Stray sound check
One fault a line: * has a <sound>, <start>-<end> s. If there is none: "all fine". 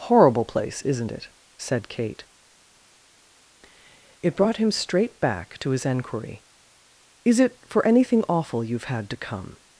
all fine